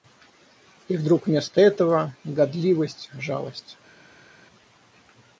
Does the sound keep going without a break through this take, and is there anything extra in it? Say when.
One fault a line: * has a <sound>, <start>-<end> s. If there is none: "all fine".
all fine